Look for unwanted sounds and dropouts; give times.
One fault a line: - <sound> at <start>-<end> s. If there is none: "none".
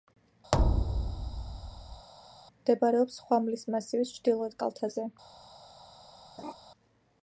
- thud at 0.5-2.1 s
- laugh at 6.4-6.5 s